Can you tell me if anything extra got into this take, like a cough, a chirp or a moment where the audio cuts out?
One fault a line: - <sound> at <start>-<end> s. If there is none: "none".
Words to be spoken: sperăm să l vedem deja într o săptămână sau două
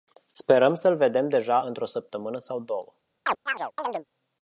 - chirp at 3.3-4.1 s